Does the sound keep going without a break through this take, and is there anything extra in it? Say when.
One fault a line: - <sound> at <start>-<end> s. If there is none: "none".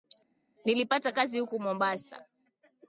none